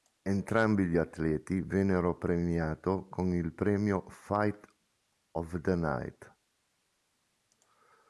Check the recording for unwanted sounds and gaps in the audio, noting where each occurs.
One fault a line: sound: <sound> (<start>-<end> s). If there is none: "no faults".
no faults